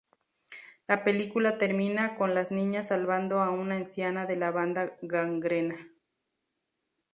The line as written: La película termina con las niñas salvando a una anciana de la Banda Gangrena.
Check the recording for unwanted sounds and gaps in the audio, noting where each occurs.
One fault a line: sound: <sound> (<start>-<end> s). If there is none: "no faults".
no faults